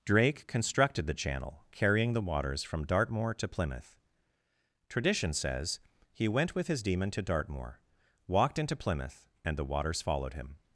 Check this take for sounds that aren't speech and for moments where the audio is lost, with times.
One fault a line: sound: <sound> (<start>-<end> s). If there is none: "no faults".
no faults